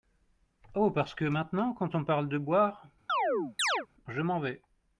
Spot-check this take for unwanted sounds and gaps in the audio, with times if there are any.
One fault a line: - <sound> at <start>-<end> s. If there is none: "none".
- chirp at 3.1-3.9 s